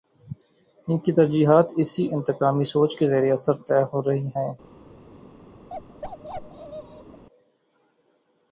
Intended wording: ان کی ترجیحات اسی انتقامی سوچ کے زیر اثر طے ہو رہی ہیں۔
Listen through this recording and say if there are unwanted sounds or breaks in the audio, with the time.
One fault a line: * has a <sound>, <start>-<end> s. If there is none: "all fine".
* has a bark, 5.7-7.2 s